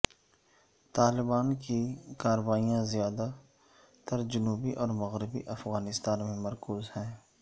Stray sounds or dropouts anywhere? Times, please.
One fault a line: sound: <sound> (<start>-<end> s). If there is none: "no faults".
no faults